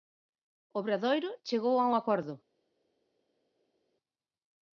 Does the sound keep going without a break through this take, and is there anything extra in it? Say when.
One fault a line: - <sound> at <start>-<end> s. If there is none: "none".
none